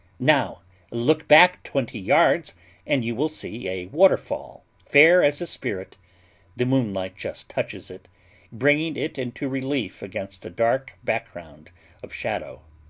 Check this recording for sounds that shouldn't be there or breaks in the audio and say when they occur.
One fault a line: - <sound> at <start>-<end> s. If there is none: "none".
none